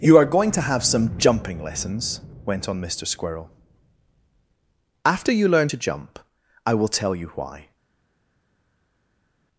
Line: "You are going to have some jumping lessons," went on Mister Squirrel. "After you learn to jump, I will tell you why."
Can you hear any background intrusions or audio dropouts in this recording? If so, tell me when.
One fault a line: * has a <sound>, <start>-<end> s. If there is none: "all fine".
all fine